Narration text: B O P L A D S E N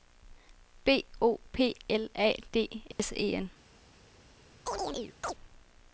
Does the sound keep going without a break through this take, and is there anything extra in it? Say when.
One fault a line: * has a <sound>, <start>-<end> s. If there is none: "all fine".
* has a dropout, 2.9-3.0 s
* has a chirp, 4.7-5.3 s